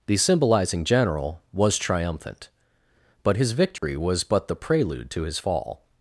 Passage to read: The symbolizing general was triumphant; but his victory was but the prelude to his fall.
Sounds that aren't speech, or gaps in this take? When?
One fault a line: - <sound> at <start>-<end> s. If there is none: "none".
- dropout at 3.8-3.8 s